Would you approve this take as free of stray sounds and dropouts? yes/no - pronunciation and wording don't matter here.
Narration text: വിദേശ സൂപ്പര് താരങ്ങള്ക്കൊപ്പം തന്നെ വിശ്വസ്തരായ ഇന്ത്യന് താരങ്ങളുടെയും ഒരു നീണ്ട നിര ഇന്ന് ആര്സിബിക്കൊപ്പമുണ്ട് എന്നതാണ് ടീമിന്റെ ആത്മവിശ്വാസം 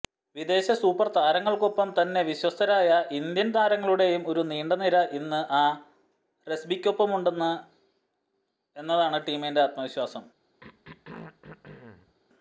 no